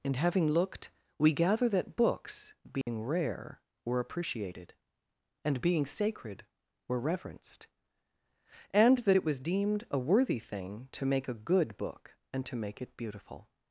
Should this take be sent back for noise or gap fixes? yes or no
yes